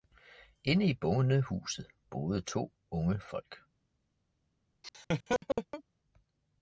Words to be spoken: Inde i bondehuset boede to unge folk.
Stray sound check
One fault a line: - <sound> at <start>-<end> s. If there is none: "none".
- laugh at 4.8-5.8 s